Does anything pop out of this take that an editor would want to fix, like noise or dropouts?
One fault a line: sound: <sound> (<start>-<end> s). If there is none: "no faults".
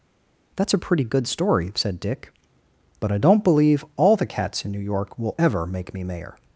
no faults